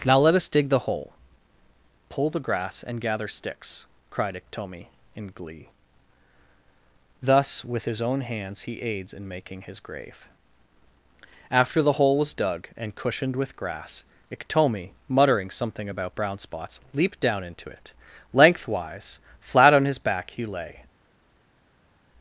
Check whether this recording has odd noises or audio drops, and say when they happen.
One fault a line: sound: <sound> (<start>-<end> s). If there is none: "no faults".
no faults